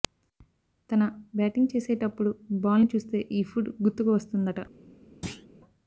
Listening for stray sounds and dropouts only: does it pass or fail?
fail